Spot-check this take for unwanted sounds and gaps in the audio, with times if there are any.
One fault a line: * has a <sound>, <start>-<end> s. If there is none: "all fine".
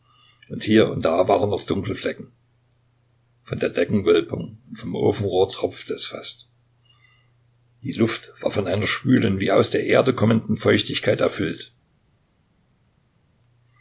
all fine